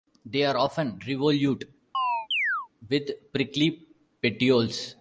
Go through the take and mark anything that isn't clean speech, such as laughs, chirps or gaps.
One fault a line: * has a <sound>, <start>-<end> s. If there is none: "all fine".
* has a chirp, 1.9-2.7 s